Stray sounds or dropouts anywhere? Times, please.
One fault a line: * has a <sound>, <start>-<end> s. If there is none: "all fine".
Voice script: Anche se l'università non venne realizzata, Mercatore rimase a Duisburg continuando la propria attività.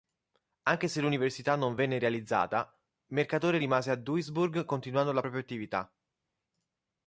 all fine